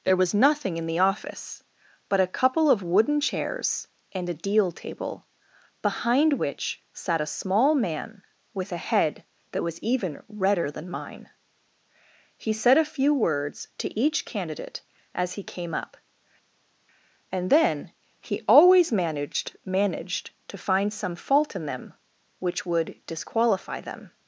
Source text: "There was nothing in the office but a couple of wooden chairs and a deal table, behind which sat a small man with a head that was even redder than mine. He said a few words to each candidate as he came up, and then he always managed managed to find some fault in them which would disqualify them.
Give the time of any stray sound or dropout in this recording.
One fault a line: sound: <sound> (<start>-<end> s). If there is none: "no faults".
no faults